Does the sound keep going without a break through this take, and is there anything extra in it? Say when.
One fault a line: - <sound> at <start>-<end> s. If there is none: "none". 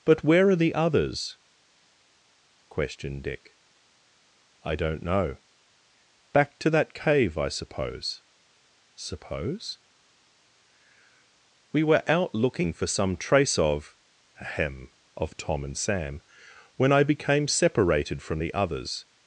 none